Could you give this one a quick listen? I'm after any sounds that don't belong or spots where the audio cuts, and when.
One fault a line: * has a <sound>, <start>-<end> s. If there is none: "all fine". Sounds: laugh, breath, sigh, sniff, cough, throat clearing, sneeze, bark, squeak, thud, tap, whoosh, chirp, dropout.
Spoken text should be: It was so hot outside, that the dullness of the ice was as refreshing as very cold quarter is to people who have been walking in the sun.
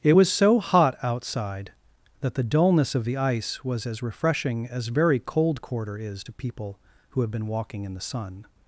all fine